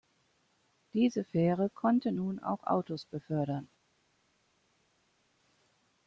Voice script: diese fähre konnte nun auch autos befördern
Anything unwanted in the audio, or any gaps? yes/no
no